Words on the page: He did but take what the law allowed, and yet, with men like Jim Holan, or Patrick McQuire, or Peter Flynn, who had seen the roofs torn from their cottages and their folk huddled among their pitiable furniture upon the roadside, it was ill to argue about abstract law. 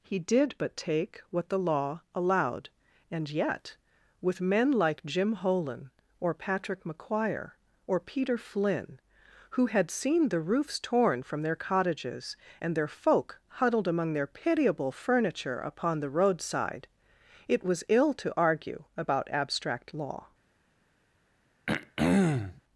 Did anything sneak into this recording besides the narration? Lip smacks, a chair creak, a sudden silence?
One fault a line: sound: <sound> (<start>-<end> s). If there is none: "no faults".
sound: throat clearing (21.7-22.6 s)